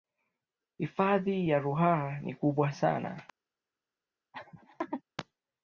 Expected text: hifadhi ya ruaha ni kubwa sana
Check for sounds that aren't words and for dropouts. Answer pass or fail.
fail